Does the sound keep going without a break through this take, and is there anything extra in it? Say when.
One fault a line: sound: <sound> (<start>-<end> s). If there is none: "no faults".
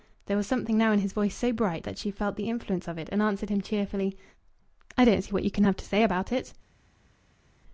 no faults